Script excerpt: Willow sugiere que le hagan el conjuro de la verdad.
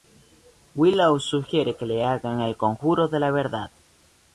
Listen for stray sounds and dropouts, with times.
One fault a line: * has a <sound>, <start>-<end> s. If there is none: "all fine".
all fine